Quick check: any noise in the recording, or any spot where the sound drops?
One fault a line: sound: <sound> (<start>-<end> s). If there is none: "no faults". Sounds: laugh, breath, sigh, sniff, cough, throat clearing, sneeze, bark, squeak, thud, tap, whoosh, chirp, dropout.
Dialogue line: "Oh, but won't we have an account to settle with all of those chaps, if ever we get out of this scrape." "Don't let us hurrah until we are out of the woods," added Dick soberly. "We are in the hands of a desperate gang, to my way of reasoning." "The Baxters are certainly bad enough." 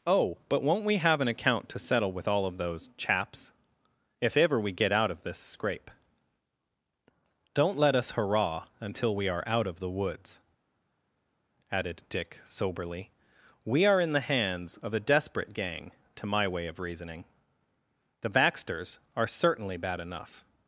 no faults